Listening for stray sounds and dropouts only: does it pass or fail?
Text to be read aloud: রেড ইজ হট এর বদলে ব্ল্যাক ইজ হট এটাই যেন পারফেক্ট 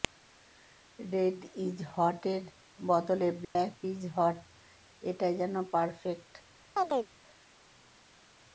fail